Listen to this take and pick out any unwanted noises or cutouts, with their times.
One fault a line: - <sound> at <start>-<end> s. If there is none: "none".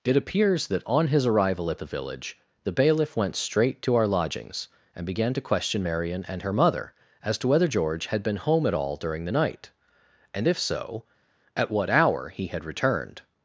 none